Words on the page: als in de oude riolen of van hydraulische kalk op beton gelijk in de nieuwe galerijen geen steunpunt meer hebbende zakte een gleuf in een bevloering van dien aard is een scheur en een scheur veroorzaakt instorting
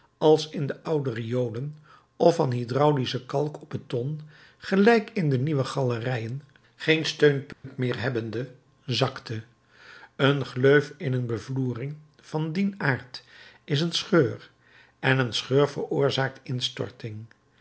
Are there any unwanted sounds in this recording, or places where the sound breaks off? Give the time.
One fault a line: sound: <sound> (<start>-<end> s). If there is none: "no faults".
sound: dropout (7.5-7.6 s)